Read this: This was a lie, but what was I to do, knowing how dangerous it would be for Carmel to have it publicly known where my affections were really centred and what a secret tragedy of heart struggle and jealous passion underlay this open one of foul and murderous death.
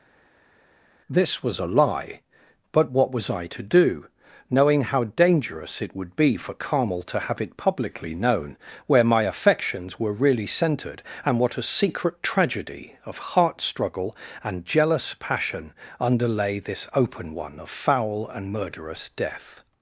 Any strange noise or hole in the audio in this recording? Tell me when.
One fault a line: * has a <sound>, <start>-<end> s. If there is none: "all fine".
all fine